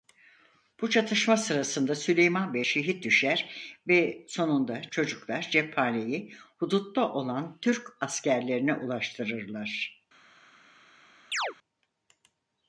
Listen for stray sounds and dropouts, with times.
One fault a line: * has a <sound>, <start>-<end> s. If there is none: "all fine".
* has a chirp, 11.3-11.5 s